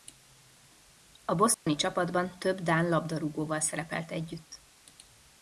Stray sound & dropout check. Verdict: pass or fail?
fail